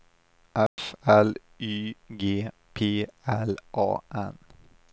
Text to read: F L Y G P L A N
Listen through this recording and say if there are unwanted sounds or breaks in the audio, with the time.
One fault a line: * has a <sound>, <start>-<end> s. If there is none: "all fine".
* has a dropout, 0.7-0.8 s